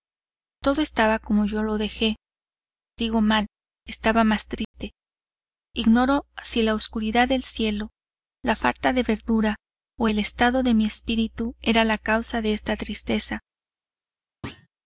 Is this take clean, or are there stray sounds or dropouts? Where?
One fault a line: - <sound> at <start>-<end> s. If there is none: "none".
- dropout at 4.6-4.7 s
- thud at 14.4-14.7 s